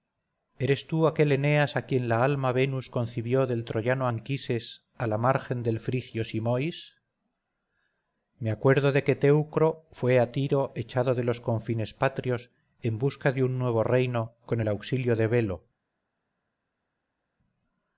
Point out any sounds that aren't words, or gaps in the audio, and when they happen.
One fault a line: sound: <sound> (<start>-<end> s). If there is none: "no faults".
no faults